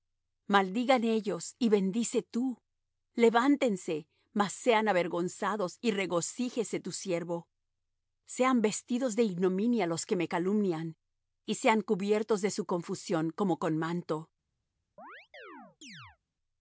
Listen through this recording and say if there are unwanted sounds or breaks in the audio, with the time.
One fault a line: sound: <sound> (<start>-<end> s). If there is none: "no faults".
sound: chirp (15.0-16.2 s)